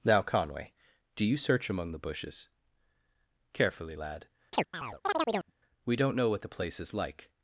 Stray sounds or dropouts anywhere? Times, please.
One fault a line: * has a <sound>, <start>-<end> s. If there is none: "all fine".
* has a chirp, 4.5-5.5 s